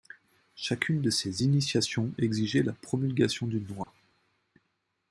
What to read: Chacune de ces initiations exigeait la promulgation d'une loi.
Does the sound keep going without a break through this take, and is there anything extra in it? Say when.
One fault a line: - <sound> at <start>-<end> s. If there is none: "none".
- dropout at 3.8-3.9 s